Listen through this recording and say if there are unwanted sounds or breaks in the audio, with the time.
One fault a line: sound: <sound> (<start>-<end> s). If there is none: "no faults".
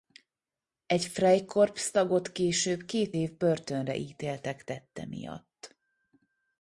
no faults